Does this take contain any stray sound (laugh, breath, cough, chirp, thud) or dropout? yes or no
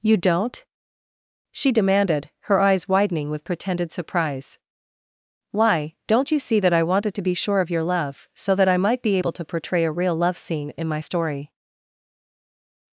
no